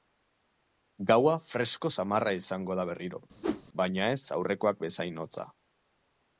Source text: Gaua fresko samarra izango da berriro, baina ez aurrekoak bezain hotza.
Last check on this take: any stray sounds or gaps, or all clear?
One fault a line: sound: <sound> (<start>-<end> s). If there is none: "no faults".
sound: whoosh (3.4-3.6 s)